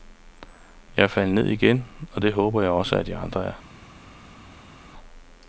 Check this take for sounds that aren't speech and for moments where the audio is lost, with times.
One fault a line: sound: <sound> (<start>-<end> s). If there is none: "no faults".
no faults